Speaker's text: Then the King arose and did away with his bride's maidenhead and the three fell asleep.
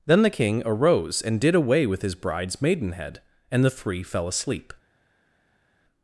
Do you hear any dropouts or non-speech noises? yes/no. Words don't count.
no